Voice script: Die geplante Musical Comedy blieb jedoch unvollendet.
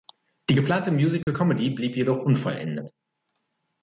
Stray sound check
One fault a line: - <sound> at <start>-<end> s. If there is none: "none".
- dropout at 1.2-1.3 s